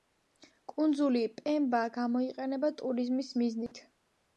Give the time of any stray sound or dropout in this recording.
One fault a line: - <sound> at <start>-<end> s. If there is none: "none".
- dropout at 3.7-3.7 s